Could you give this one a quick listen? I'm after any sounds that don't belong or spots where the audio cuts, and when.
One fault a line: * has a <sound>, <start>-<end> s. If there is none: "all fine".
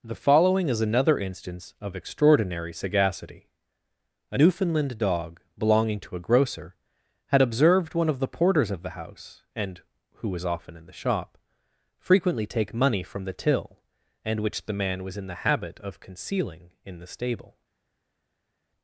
all fine